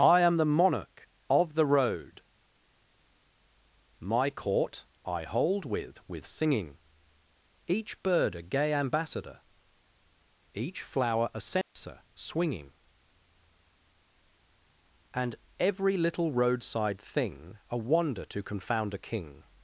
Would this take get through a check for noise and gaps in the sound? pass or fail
fail